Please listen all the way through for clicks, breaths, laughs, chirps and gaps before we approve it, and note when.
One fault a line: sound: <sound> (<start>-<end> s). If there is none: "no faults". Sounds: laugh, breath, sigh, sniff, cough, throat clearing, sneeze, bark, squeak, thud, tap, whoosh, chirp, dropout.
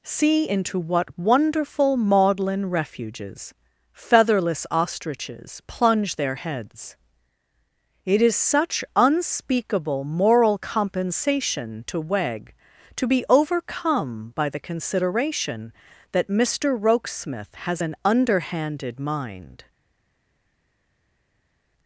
no faults